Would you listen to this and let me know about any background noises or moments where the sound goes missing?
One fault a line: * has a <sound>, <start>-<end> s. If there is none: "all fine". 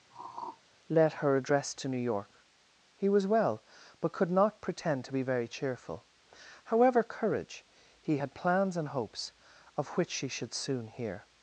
* has a throat clearing, 0.1-0.6 s